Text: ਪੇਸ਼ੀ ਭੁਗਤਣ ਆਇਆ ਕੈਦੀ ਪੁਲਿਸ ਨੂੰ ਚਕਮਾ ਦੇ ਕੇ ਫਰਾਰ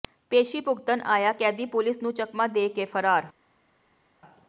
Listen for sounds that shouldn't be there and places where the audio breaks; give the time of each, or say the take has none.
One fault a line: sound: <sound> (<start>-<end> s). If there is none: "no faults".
no faults